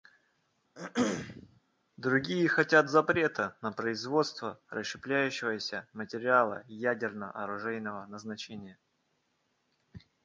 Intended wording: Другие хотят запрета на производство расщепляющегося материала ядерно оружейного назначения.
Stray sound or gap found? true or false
true